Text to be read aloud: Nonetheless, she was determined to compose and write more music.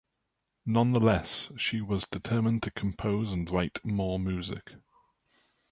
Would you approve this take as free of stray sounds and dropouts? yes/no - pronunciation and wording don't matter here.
yes